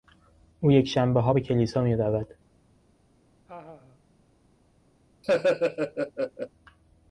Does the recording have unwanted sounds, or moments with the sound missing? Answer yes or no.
yes